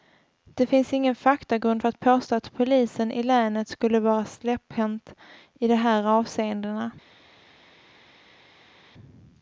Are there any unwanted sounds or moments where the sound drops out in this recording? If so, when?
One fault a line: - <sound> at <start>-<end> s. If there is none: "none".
none